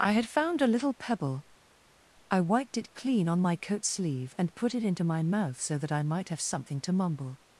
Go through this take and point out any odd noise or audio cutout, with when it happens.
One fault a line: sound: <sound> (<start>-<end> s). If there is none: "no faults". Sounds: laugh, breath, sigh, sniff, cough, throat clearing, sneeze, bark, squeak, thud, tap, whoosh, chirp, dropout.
no faults